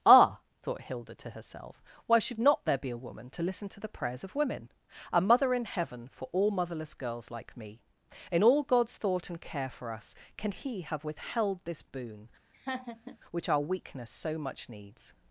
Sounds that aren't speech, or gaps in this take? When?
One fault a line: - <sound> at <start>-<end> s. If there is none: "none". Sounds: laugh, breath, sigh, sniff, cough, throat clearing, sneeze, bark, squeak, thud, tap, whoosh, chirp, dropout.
- laugh at 12.5-13.2 s